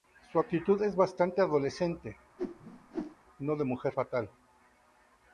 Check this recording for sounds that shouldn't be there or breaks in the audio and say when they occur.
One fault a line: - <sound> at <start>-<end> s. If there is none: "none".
- whoosh at 2.4-3.2 s